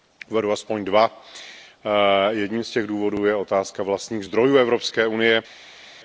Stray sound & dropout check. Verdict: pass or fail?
pass